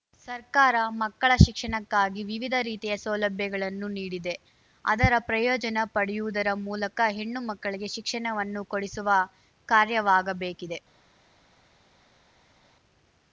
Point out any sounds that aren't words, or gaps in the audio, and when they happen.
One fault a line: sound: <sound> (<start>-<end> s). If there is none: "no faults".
no faults